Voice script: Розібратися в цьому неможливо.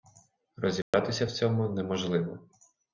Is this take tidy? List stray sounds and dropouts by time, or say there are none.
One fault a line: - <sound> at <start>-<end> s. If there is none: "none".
- dropout at 0.8-0.9 s